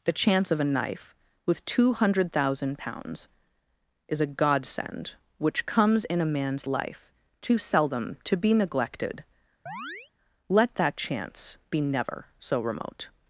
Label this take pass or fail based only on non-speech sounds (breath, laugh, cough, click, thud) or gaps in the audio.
fail